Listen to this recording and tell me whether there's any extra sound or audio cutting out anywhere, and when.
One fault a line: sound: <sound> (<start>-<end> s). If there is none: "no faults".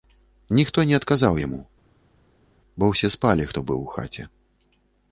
no faults